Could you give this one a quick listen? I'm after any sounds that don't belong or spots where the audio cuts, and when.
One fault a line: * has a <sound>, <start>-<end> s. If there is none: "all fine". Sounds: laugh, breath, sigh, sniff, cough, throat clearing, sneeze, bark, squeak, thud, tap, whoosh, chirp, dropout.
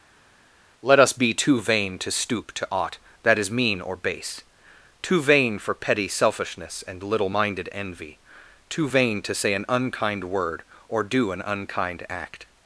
all fine